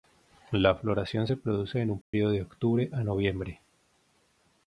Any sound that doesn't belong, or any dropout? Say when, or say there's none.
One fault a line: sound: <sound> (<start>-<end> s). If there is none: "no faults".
sound: dropout (2.0-2.1 s)